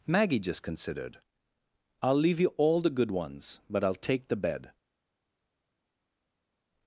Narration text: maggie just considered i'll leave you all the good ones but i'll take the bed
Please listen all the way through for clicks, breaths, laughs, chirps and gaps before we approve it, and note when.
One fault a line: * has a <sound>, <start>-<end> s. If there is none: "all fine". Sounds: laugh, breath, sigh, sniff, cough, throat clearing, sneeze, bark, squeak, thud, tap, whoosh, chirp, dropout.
all fine